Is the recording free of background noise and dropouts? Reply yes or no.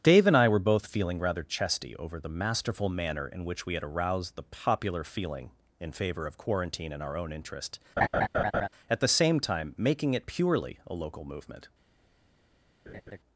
no